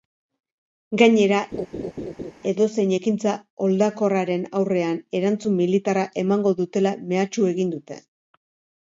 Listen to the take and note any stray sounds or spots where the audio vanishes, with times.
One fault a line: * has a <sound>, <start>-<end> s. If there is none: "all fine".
* has a laugh, 1.5-2.3 s